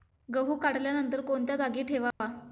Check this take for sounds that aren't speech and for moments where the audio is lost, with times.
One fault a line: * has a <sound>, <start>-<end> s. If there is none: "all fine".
* has a dropout, 2.1-2.2 s